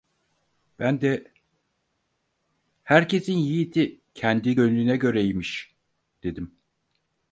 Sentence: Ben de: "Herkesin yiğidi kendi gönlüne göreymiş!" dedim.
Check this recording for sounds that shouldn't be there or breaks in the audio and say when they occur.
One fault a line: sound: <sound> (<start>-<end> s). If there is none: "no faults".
no faults